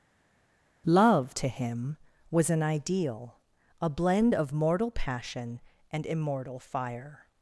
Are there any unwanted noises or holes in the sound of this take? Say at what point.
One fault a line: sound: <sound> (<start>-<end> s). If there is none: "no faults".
no faults